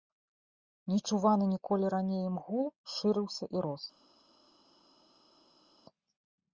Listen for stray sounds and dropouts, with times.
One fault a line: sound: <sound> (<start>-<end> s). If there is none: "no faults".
no faults